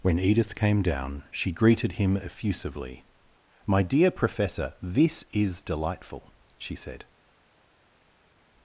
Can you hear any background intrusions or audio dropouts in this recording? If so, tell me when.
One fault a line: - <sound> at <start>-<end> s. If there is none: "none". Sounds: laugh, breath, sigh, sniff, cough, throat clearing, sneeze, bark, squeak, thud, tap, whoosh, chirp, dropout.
none